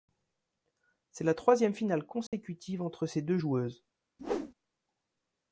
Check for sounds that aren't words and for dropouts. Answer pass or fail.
fail